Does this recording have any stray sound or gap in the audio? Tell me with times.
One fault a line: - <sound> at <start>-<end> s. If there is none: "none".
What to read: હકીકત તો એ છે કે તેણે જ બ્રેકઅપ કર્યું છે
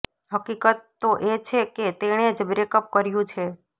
none